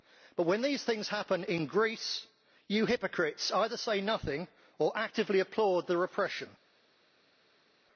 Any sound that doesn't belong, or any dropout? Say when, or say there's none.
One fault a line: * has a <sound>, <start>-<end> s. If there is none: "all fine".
all fine